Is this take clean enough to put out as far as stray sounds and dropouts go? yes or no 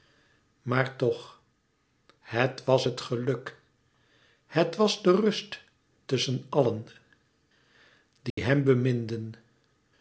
no